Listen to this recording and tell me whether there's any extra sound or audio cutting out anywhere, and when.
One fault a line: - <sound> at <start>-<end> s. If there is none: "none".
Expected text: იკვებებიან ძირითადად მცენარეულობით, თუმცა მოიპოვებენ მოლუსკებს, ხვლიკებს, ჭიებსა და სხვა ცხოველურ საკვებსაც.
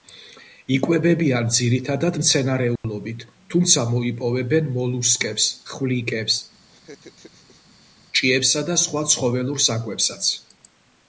- dropout at 2.8-2.8 s
- laugh at 6.7-7.9 s